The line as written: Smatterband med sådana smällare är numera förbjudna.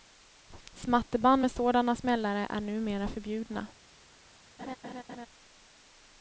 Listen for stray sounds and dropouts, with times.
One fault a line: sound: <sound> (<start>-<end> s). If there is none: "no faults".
sound: laugh (4.6-5.3 s)